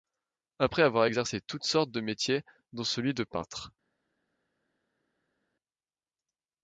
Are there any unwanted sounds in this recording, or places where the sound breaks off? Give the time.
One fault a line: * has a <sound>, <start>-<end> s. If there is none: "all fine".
all fine